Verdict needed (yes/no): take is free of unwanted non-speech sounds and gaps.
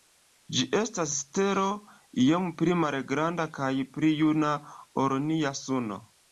yes